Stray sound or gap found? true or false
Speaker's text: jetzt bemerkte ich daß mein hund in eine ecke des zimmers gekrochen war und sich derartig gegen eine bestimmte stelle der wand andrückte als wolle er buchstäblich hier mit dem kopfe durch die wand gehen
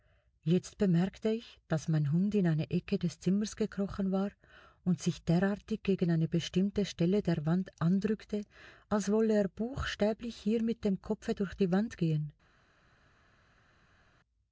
false